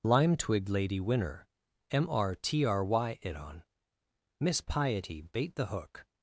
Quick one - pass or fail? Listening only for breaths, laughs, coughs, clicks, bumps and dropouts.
pass